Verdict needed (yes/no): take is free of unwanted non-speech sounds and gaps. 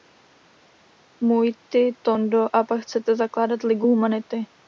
yes